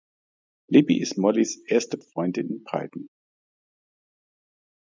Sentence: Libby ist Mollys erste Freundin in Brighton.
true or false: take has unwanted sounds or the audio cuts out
false